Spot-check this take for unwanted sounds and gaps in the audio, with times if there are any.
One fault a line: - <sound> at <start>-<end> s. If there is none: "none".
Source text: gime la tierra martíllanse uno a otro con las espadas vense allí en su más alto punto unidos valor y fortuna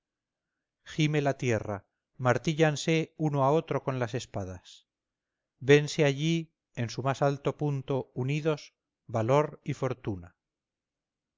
none